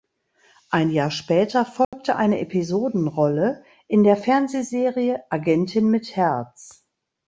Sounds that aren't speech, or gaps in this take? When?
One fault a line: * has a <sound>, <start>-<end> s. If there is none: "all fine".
* has a dropout, 1.8-1.9 s